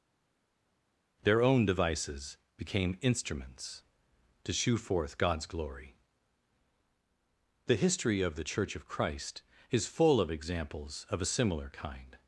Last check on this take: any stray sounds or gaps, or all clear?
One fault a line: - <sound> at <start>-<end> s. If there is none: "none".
none